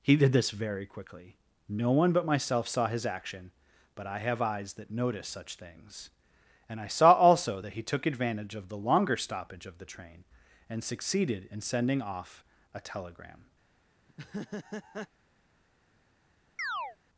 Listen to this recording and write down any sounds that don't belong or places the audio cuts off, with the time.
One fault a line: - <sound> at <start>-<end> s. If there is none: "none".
- laugh at 14.1-15.1 s
- chirp at 16.6-17.0 s